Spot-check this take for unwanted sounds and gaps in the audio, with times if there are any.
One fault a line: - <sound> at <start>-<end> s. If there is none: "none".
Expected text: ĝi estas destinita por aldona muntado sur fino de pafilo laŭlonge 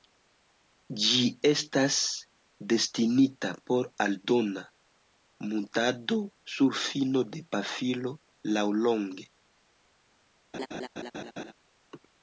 - laugh at 10.5-11.5 s